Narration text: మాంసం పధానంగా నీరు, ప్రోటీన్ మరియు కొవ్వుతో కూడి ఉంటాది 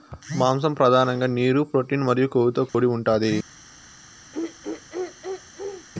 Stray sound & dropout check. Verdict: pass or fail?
fail